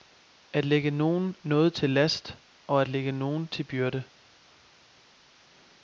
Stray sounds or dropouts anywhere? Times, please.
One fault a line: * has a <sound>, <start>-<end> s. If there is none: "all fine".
all fine